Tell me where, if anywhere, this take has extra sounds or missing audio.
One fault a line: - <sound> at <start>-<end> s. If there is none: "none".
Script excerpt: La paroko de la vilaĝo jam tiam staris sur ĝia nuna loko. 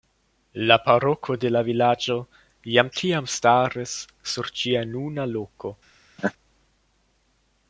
- laugh at 6.2-6.3 s